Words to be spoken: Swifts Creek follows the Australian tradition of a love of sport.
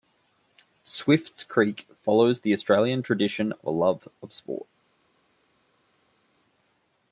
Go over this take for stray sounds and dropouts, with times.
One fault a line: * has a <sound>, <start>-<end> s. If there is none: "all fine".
all fine